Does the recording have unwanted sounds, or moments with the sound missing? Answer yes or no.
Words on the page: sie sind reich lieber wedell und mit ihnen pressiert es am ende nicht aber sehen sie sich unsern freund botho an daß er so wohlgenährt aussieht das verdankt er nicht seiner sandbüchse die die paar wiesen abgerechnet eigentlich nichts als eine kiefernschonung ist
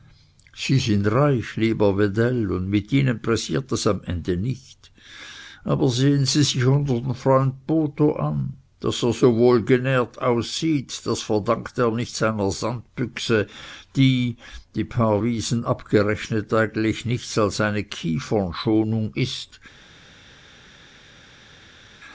no